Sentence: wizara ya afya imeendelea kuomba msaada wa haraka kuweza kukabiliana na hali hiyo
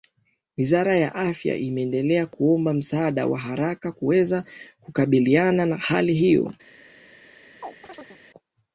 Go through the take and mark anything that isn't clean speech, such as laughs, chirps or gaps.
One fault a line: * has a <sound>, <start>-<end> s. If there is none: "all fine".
* has a chirp, 7.6-8.2 s